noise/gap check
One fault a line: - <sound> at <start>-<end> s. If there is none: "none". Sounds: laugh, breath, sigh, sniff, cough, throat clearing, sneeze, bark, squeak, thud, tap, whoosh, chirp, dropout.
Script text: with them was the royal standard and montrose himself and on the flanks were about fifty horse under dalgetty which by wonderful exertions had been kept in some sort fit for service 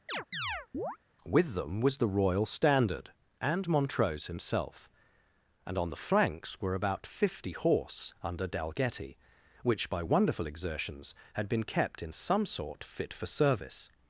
- chirp at 0.1-1.0 s